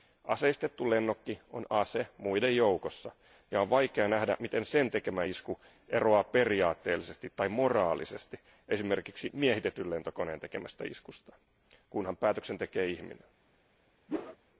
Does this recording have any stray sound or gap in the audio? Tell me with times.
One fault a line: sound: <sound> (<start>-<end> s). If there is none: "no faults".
sound: whoosh (14.1-14.4 s)